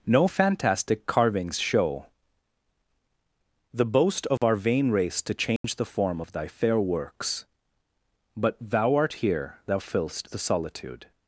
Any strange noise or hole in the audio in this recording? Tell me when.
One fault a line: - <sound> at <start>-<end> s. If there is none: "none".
- dropout at 4.4-4.4 s
- dropout at 5.6-5.6 s